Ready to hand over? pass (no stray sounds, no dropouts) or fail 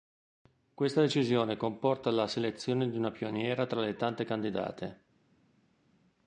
pass